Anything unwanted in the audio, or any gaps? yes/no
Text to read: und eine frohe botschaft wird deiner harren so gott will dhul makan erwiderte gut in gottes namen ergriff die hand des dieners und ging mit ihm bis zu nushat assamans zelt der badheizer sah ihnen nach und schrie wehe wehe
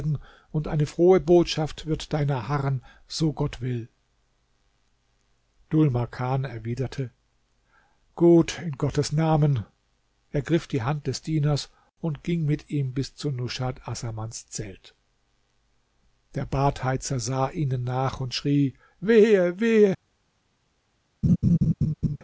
yes